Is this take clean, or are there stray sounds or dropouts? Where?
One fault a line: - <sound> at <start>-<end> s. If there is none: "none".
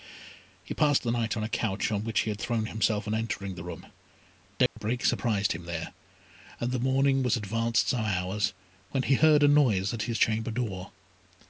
- dropout at 4.7-4.8 s